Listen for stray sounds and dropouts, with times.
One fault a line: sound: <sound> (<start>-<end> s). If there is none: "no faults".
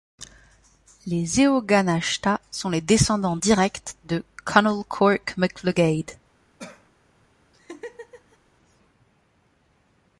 sound: cough (6.6-6.9 s)
sound: laugh (7.5-8.4 s)